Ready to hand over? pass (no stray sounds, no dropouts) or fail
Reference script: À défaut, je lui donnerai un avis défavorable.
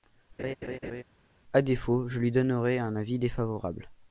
fail